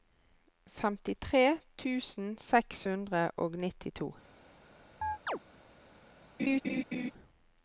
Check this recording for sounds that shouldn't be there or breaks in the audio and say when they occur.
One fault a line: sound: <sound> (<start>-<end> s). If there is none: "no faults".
sound: chirp (5.0-5.4 s)
sound: laugh (6.4-7.1 s)